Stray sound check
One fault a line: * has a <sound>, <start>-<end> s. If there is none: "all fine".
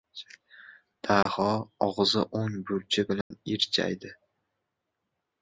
* has a dropout, 1.2-1.3 s
* has a dropout, 3.2-3.3 s